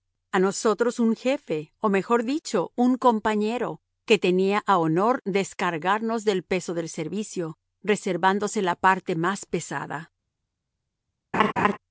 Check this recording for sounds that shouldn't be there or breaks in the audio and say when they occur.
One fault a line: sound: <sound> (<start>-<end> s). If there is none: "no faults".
sound: laugh (11.3-11.8 s)